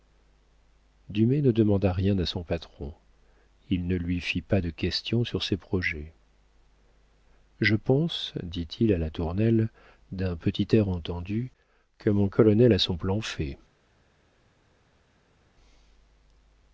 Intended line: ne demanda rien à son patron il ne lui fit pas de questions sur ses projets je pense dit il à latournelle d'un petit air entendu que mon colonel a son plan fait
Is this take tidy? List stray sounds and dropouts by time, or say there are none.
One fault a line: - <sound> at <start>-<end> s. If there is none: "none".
none